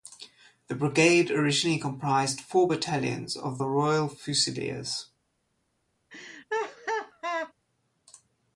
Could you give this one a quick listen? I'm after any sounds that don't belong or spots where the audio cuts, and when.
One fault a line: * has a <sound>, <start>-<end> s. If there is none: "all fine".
* has a laugh, 6.1-7.5 s